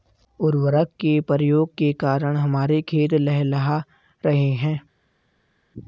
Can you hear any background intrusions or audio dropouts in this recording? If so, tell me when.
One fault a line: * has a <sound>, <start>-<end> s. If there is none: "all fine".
all fine